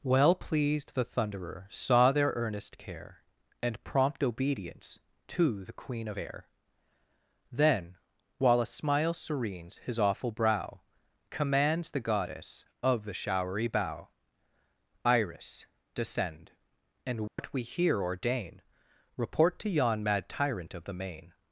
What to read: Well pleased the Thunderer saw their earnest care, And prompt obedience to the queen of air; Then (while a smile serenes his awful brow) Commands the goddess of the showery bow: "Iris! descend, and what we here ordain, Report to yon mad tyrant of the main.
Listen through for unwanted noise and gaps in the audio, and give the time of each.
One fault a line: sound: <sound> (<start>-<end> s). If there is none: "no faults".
sound: dropout (17.3-17.4 s)